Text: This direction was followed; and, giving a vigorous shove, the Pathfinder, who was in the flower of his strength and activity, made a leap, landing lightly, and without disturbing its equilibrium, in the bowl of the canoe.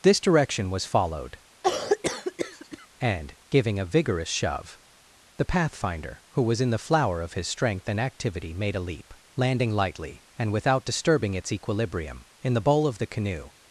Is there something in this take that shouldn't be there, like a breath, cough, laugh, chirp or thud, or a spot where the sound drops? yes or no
yes